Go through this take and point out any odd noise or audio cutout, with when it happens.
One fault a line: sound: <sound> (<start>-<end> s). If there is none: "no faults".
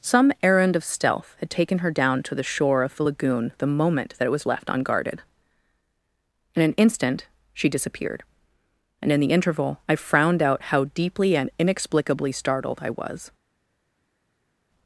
no faults